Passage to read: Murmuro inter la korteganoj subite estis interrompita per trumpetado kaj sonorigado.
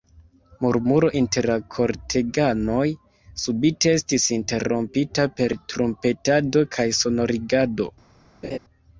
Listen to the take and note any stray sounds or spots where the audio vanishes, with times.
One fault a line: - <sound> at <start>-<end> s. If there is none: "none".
- laugh at 8.4-8.6 s